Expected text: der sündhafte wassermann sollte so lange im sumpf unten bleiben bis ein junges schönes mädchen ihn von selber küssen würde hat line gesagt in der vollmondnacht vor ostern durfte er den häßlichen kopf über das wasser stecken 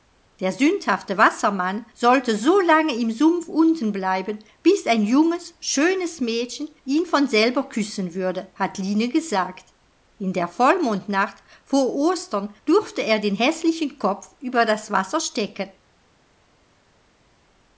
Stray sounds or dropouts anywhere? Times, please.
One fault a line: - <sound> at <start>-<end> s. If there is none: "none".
none